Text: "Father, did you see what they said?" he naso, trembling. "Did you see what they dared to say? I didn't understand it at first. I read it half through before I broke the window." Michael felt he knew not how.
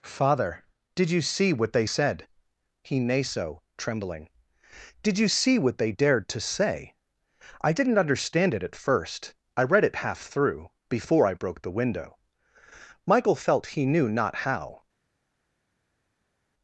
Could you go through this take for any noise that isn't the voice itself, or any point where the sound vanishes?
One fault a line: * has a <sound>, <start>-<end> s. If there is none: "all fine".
all fine